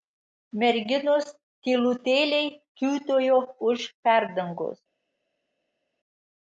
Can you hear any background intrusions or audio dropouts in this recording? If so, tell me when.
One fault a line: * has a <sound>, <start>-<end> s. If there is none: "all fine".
all fine